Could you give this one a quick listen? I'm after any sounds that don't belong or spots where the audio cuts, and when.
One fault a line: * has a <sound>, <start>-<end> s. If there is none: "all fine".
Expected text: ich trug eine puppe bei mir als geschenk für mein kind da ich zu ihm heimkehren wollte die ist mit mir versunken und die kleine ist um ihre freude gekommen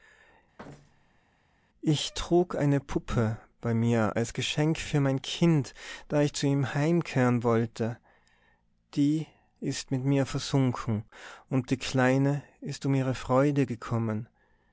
* has a thud, 0.6-1.2 s